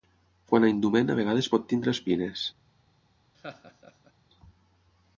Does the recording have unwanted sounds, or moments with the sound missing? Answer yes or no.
yes